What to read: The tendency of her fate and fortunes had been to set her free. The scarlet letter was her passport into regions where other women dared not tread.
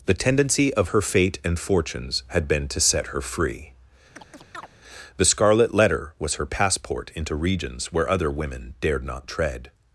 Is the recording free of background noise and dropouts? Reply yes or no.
no